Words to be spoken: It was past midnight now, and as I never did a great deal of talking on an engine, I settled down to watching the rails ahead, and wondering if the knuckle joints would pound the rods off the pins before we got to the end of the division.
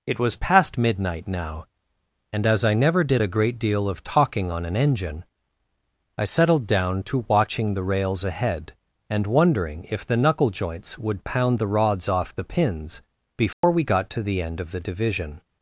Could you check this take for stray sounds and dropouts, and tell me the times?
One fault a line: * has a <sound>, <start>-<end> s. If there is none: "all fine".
* has a dropout, 13.5-13.6 s